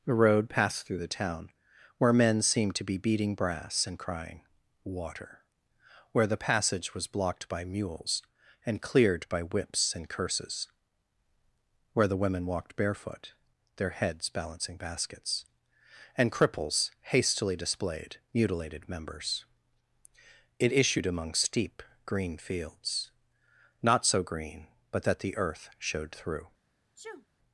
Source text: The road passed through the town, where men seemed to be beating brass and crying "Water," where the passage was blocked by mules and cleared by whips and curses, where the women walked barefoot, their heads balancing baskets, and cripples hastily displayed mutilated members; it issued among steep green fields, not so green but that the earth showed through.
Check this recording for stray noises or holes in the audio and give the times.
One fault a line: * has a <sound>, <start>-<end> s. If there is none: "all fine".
* has a sneeze, 27.0-27.3 s